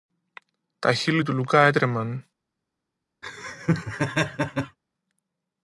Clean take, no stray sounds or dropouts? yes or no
no